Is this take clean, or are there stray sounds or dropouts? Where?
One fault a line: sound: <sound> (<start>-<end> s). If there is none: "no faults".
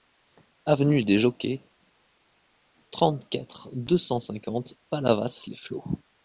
no faults